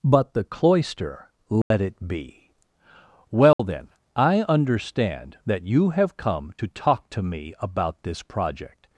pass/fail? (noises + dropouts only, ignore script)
fail